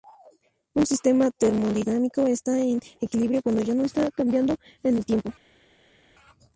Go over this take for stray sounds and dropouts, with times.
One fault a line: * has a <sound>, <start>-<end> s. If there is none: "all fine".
all fine